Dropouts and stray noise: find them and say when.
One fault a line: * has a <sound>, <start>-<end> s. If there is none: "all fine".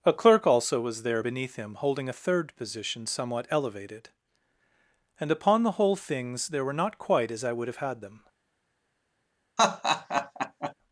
* has a laugh, 9.6-10.7 s